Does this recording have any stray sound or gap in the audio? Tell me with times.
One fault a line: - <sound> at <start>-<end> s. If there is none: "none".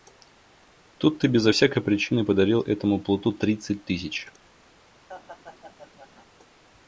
- laugh at 5.1-6.3 s